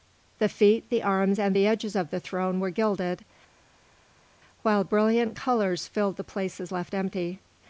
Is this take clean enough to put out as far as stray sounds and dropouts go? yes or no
yes